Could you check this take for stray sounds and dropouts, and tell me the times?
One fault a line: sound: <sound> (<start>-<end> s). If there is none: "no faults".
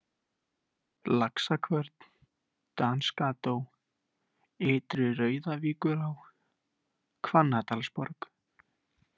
no faults